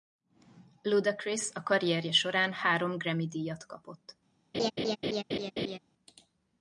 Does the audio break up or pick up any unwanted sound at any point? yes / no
yes